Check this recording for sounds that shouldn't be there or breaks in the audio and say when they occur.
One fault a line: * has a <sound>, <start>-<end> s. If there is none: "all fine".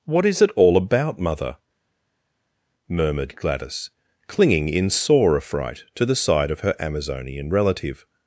all fine